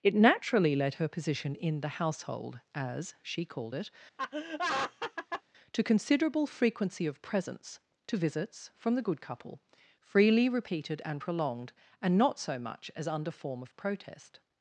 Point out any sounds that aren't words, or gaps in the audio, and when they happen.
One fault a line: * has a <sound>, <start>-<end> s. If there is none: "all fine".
* has a laugh, 4.2-5.4 s